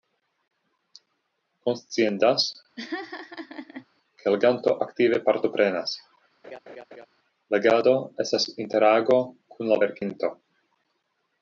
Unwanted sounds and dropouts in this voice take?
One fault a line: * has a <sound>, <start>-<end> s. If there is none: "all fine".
* has a laugh, 2.8-3.9 s
* has a laugh, 6.4-7.1 s